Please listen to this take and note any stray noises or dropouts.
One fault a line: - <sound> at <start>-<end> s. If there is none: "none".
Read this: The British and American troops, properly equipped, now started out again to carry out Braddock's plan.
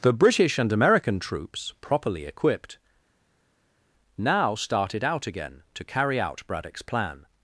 none